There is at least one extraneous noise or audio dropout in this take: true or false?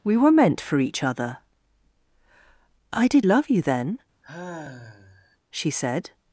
true